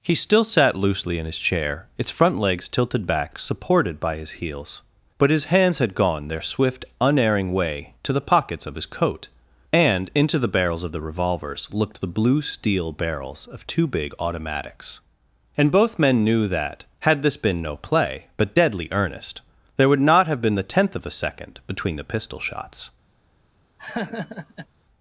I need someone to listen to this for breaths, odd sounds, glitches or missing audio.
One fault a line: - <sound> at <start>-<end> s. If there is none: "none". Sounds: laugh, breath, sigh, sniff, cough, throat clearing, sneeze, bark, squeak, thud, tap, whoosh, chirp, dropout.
- laugh at 23.8-24.7 s